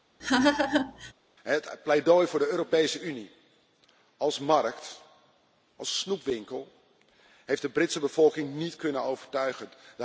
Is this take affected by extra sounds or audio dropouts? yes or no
yes